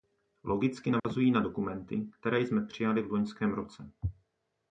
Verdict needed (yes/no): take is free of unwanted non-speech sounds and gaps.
no